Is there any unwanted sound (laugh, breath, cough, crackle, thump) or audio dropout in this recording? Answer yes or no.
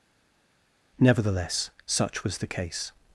no